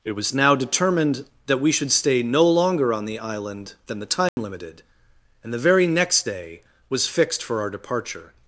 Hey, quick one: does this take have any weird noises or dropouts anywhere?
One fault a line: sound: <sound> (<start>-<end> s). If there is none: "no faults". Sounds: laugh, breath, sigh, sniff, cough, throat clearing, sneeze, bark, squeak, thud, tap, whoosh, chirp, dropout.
sound: dropout (4.3-4.4 s)